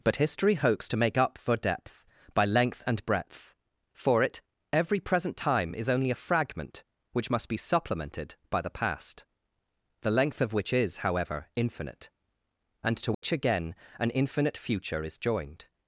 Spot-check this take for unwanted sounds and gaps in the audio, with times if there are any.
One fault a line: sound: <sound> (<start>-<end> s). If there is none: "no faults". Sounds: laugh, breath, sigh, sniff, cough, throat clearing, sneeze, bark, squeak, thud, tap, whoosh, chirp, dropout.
sound: dropout (13.1-13.2 s)